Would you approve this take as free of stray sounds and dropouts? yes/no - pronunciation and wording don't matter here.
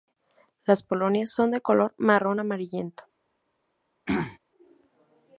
no